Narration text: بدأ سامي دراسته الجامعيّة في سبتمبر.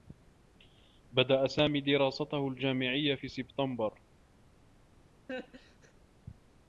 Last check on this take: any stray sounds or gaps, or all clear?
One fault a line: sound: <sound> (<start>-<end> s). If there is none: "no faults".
sound: laugh (5.3-5.9 s)